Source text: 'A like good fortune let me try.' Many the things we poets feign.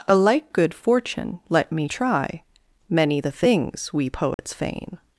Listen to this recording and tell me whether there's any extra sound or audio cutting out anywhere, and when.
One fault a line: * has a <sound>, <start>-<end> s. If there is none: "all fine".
* has a dropout, 4.3-4.4 s